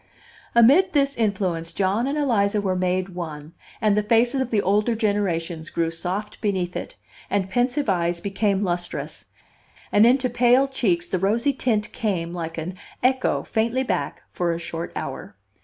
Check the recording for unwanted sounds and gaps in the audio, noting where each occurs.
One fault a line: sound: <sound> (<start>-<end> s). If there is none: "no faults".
no faults